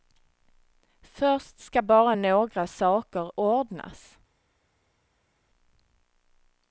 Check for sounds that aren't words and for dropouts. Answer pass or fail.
pass